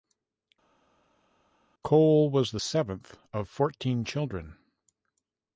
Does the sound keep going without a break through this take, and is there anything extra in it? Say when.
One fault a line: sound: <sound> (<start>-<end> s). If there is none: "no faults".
no faults